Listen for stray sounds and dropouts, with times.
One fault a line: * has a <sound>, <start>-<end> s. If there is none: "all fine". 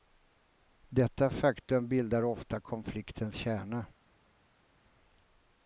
all fine